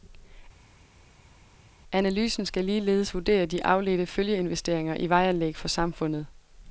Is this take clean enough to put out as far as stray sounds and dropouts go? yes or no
yes